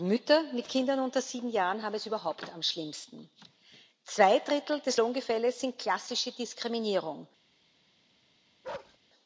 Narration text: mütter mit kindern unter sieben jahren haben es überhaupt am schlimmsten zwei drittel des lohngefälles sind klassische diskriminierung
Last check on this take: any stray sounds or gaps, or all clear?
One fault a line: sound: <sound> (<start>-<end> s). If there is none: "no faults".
sound: bark (8.6-9.0 s)